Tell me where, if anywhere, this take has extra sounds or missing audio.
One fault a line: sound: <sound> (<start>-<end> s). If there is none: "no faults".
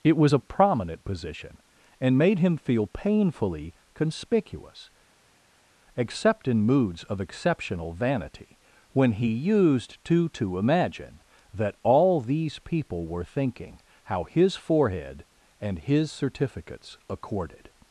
no faults